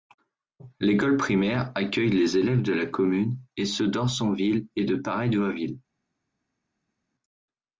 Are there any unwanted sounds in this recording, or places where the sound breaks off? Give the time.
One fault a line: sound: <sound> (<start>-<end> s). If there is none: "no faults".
no faults